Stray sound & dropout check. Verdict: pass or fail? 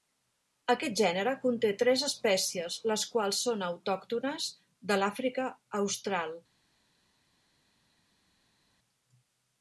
pass